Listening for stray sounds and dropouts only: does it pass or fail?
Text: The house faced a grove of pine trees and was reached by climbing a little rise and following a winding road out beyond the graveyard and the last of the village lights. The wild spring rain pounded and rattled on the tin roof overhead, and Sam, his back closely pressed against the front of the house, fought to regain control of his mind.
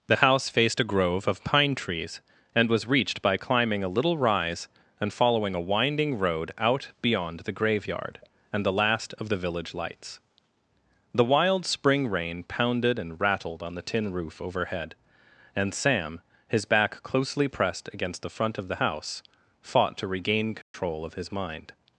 fail